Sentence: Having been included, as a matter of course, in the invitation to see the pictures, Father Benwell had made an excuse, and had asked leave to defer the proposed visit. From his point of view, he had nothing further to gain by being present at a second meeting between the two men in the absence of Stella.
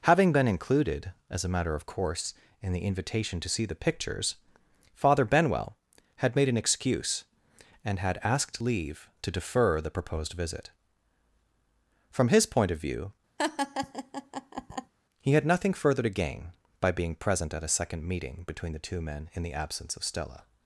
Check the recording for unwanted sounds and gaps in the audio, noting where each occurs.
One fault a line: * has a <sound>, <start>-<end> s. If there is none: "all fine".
* has a laugh, 13.4-14.9 s